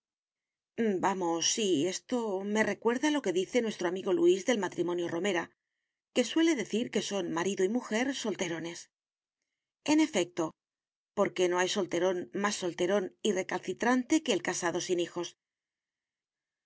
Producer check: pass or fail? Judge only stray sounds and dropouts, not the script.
pass